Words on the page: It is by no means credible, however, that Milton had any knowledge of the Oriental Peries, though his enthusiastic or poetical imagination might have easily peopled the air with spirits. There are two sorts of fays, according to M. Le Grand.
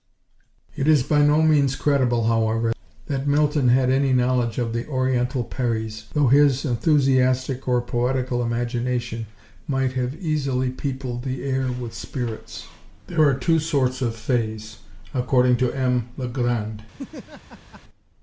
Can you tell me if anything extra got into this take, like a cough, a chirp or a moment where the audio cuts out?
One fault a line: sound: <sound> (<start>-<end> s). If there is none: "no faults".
sound: laugh (16.9-17.8 s)